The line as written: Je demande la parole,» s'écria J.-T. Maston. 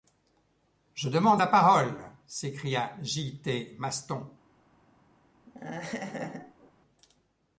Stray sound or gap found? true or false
true